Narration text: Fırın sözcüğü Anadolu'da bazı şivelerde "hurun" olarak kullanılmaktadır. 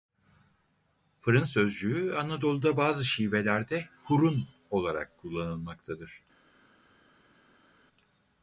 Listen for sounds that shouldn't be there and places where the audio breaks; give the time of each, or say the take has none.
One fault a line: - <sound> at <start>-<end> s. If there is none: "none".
none